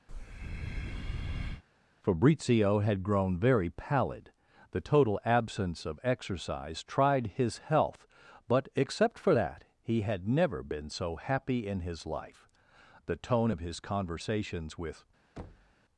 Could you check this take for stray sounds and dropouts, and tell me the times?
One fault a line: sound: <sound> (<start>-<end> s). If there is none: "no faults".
sound: breath (0.1-1.6 s)
sound: thud (15.4-15.7 s)